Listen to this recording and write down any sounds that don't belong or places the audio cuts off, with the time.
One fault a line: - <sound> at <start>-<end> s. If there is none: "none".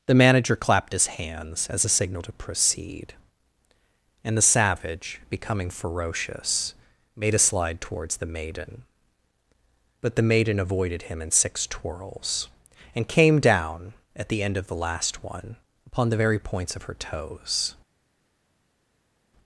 none